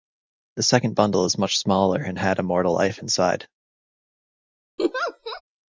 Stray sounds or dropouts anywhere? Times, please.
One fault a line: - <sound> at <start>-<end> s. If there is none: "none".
- laugh at 4.8-5.4 s